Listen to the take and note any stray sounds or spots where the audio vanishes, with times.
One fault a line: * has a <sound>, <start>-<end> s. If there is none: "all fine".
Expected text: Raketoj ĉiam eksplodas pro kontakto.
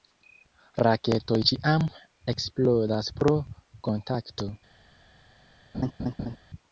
* has a laugh, 5.7-6.4 s